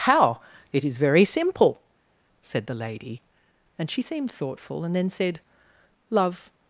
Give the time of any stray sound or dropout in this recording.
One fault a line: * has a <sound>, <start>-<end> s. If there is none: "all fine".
all fine